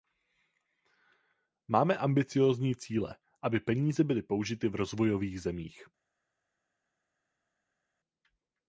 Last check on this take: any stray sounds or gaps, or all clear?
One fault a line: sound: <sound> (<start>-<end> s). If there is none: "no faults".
no faults